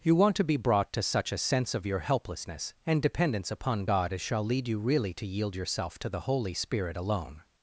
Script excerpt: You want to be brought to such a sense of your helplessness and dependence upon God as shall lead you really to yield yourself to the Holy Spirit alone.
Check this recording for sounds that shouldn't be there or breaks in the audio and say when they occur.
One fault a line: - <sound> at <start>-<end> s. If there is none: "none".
none